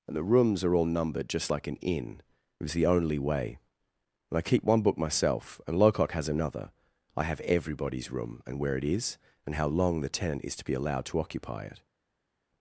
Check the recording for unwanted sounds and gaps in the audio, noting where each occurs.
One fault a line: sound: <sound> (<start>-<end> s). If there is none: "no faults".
no faults